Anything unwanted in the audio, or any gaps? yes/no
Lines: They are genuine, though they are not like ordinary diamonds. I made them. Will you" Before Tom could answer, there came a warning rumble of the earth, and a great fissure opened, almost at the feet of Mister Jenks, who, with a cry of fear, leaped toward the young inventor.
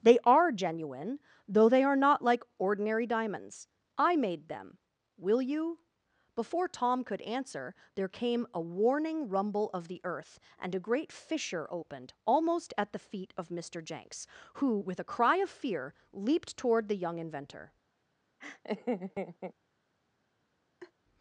yes